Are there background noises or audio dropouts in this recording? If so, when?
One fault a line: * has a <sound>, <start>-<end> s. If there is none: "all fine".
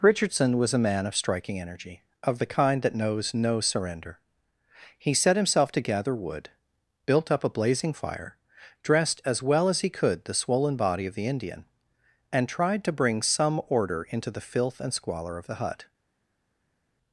all fine